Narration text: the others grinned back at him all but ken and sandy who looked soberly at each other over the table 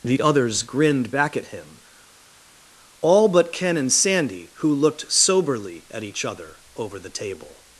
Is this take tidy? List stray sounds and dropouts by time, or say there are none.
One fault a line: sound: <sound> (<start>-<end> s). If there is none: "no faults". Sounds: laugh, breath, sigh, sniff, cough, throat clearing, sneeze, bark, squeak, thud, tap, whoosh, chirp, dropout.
no faults